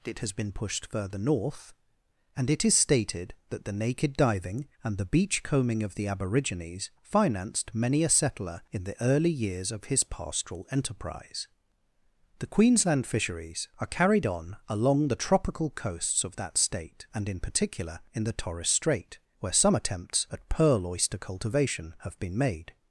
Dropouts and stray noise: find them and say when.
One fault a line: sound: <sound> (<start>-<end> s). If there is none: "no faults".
no faults